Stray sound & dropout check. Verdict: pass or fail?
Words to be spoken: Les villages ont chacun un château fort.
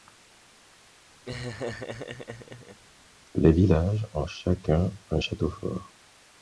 fail